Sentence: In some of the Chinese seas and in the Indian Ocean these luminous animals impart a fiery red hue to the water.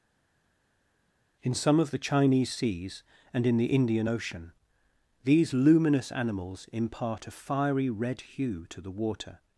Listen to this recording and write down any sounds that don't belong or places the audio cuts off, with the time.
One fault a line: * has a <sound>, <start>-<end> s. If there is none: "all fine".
all fine